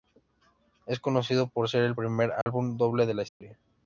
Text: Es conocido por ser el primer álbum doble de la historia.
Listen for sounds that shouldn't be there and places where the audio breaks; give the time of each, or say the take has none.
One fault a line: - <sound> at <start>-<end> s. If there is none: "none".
- dropout at 2.4-2.5 s
- dropout at 3.3-3.4 s